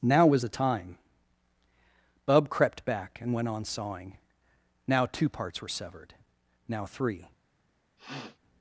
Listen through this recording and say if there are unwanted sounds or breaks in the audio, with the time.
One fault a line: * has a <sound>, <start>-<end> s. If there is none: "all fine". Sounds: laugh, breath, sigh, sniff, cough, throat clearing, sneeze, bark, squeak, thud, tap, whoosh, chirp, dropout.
* has a sniff, 8.0-8.4 s